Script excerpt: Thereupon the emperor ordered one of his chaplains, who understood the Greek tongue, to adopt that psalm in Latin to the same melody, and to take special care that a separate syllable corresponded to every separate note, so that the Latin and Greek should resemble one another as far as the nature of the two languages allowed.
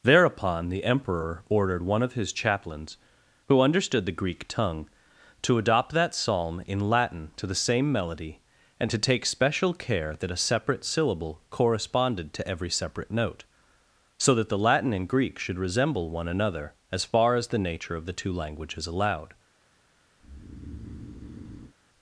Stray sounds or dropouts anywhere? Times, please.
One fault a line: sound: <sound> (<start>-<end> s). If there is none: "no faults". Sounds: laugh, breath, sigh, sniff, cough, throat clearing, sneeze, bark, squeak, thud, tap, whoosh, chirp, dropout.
sound: breath (20.2-21.7 s)